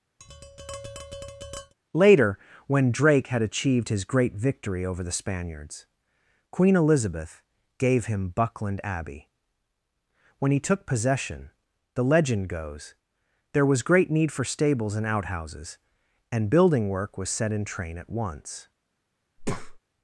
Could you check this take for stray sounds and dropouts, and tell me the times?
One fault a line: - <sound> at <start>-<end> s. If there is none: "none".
- tap at 0.2-1.7 s
- breath at 19.4-19.8 s